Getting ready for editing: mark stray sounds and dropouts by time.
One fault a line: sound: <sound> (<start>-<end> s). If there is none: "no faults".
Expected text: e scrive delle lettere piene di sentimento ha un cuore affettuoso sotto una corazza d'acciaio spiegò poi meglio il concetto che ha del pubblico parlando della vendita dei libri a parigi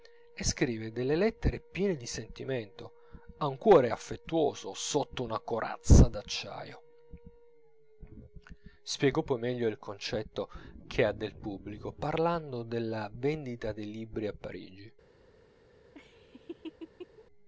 sound: laugh (15.9-17.3 s)